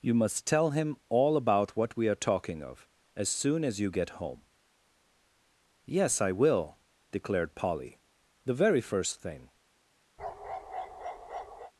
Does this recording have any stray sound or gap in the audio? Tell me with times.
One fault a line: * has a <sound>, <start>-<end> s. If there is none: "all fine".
* has a bark, 10.2-11.7 s